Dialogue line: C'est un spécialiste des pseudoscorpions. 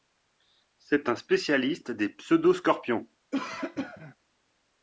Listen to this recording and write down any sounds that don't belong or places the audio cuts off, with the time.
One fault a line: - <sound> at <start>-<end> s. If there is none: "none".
- cough at 3.3-4.2 s